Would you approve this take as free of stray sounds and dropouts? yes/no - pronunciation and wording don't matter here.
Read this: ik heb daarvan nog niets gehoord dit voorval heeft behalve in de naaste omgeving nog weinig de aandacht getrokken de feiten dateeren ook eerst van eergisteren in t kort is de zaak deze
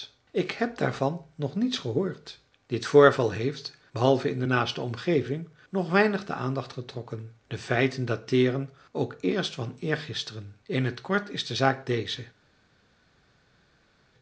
yes